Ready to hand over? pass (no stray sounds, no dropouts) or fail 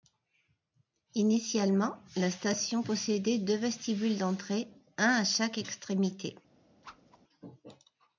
fail